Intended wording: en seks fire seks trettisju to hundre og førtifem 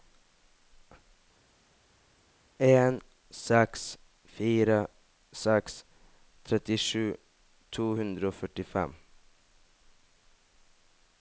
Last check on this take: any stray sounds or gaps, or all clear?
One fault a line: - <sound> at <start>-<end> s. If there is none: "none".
none